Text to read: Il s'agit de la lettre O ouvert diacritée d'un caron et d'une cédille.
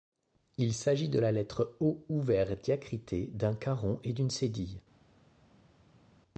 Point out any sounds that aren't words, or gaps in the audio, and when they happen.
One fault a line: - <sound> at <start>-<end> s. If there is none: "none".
none